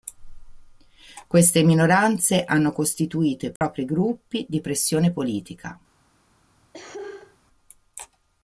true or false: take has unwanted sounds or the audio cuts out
true